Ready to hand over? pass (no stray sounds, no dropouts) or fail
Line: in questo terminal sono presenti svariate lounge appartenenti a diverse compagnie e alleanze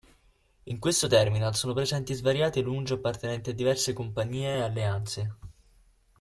pass